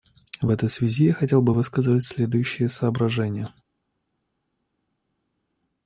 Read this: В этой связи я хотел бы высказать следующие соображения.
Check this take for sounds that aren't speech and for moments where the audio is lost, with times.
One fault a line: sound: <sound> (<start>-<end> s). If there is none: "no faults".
no faults